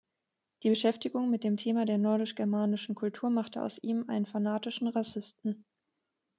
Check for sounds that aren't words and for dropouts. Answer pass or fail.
pass